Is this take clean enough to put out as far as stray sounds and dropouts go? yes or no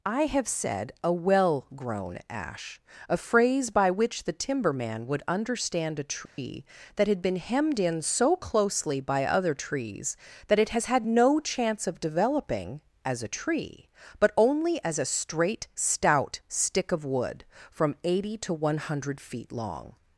no